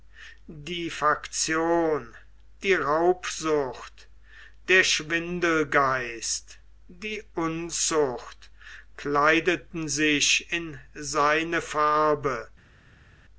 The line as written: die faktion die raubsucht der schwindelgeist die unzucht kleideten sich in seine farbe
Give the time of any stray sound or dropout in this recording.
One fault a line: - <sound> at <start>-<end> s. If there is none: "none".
none